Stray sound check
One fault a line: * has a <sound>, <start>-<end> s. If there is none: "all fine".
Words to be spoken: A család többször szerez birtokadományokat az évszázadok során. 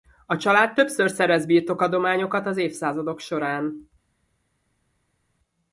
all fine